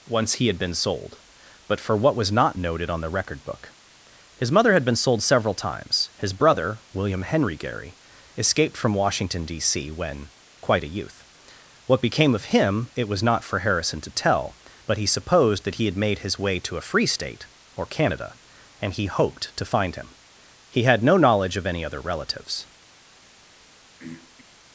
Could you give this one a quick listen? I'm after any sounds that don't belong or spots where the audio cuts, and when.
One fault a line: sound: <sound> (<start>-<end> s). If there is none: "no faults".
sound: throat clearing (24.0-24.4 s)